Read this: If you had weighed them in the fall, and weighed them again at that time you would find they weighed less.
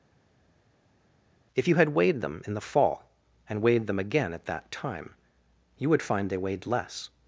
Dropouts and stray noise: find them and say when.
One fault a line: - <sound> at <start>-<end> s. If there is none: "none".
none